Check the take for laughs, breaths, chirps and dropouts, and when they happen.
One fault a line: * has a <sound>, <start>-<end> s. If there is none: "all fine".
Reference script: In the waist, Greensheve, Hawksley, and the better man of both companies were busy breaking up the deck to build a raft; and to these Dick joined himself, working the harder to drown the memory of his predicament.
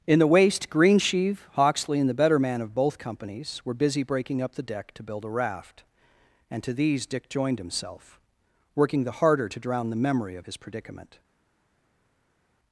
all fine